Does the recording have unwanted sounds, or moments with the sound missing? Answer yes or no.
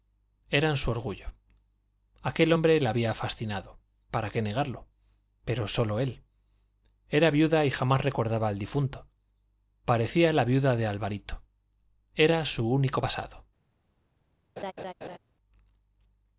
yes